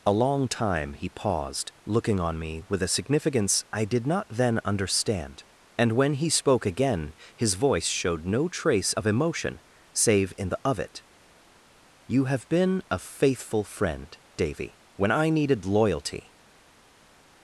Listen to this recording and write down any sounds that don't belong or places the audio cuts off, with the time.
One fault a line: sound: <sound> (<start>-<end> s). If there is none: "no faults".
no faults